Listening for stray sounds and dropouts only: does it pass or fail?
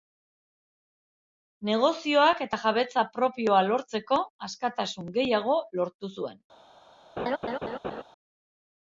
fail